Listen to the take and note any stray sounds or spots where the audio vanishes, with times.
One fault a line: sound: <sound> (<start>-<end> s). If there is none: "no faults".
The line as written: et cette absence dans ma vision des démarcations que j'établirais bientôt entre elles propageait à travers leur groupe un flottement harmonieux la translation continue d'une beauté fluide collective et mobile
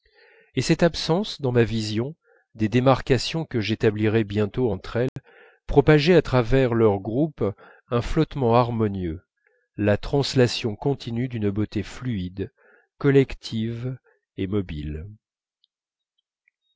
sound: dropout (5.1-5.2 s)